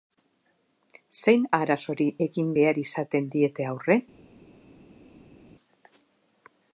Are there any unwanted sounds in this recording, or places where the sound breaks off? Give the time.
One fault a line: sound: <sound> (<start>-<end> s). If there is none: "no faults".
no faults